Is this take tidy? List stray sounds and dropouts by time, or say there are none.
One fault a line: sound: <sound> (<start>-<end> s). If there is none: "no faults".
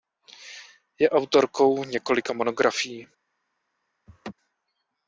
sound: laugh (4.1-4.3 s)